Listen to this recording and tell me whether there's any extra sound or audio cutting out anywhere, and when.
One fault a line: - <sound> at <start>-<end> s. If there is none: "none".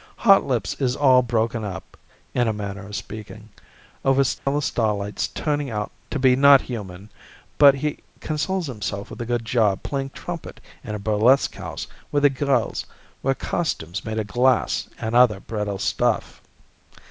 - dropout at 4.4-4.5 s